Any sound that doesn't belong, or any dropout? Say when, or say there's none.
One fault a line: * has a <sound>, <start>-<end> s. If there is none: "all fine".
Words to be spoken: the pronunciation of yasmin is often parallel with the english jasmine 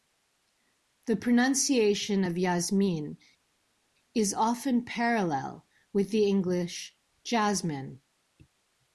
all fine